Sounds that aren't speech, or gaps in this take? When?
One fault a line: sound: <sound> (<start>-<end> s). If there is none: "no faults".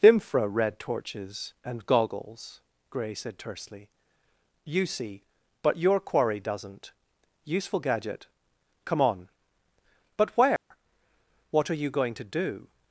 sound: dropout (10.6-10.7 s)